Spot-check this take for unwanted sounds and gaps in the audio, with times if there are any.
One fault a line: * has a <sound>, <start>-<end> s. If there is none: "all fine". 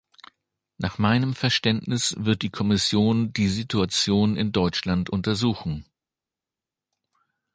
all fine